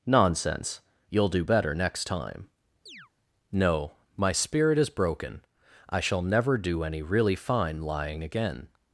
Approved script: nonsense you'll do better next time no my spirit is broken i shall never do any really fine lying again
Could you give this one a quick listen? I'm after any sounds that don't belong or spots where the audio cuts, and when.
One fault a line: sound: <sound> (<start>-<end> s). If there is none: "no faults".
sound: chirp (2.9-3.1 s)